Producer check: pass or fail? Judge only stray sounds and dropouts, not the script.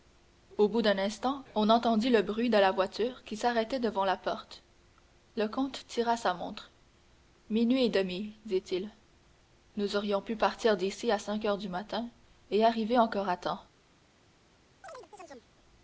fail